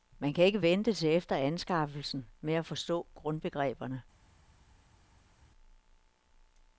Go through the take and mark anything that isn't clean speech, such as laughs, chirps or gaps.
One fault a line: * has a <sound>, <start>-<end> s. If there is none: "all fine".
all fine